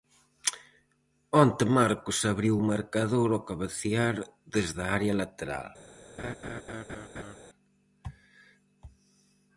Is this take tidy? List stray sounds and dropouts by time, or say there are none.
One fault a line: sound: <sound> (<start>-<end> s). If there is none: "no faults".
sound: laugh (6.2-7.4 s)